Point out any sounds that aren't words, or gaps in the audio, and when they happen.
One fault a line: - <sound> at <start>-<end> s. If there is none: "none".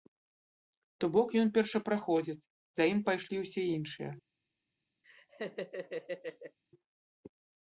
- laugh at 5.0-6.6 s